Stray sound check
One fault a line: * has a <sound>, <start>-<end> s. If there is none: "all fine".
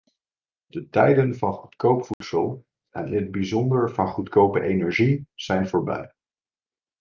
* has a dropout, 2.1-2.2 s